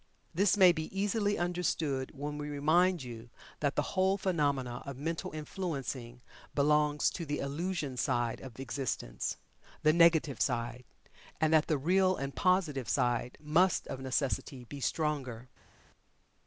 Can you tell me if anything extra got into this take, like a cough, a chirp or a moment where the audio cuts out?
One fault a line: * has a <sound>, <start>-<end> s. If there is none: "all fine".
all fine